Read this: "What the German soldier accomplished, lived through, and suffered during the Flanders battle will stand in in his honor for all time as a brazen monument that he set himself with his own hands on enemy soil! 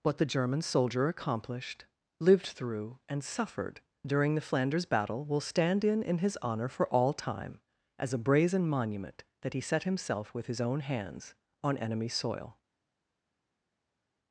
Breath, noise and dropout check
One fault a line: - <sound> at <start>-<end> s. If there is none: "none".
none